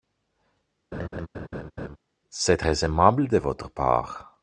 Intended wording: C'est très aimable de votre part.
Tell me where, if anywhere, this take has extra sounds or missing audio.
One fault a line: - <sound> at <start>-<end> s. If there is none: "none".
- laugh at 0.9-2.0 s